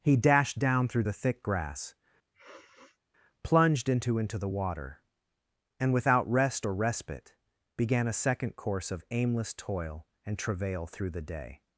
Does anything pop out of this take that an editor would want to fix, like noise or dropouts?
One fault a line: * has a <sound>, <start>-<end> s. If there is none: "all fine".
* has a sniff, 2.3-3.0 s